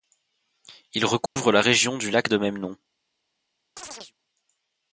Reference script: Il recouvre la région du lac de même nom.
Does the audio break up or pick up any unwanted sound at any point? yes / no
yes